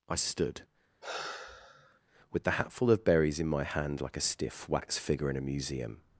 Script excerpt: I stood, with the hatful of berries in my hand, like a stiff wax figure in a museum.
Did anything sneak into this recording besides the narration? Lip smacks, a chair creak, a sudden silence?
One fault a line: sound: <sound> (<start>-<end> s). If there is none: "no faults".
sound: sigh (1.0-2.0 s)